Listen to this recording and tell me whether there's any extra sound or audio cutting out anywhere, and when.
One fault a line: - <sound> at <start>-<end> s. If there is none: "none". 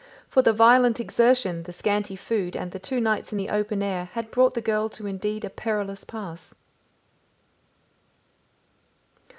none